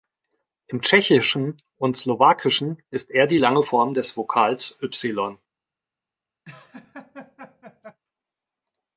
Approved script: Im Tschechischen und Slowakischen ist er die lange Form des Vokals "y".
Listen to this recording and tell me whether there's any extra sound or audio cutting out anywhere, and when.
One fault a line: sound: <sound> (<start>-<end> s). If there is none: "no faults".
sound: laugh (6.4-8.0 s)